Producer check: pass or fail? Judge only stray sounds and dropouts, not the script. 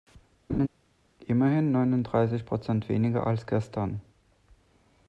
fail